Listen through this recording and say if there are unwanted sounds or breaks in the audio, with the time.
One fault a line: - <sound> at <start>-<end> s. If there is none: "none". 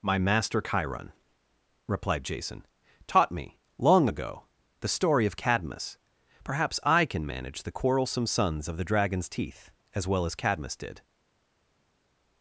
none